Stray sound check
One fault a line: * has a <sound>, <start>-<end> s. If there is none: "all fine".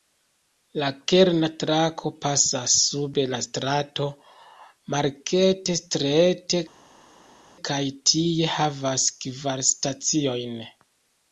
all fine